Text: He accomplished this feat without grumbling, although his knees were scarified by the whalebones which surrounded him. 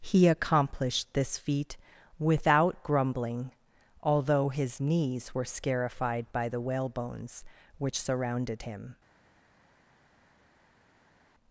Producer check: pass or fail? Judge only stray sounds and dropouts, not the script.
pass